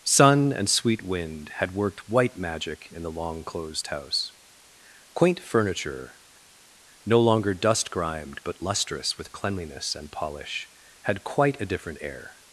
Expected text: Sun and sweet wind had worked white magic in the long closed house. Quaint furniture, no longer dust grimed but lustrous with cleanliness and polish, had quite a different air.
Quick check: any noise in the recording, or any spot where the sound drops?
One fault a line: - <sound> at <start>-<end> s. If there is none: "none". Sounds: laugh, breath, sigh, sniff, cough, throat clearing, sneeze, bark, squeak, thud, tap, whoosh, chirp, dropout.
none